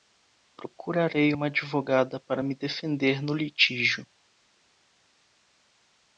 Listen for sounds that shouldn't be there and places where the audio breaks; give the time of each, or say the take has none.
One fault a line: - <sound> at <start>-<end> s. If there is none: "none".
none